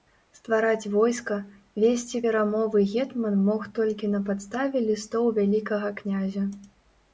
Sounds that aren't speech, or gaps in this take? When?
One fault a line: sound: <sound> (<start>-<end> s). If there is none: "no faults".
no faults